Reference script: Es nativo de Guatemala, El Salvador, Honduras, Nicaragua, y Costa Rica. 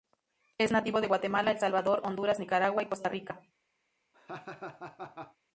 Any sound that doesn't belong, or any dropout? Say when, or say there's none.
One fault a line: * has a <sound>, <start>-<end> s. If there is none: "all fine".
* has a laugh, 4.1-5.4 s